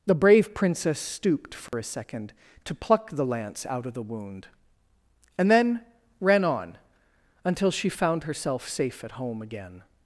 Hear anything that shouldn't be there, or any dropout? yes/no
yes